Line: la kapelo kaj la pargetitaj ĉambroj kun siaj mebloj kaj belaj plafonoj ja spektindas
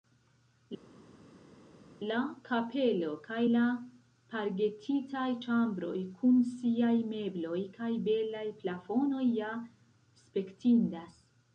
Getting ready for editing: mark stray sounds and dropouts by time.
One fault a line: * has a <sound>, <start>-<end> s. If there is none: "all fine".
all fine